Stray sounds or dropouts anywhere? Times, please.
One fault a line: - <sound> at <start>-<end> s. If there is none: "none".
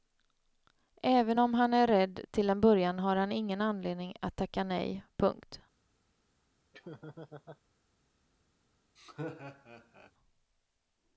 - laugh at 6.7-7.6 s
- laugh at 9.0-10.1 s